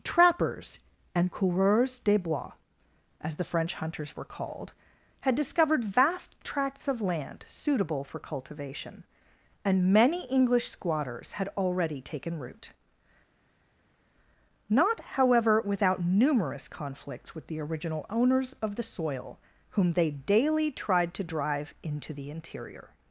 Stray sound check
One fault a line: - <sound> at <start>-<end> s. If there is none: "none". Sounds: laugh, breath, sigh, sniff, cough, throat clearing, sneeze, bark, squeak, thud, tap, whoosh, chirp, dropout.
none